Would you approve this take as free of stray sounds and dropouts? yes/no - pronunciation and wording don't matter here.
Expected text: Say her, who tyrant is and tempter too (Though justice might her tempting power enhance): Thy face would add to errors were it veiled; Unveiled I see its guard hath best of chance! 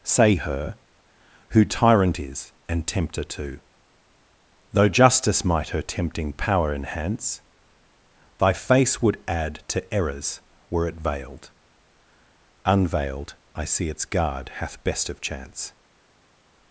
yes